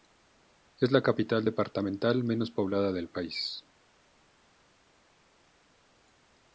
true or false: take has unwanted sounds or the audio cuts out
false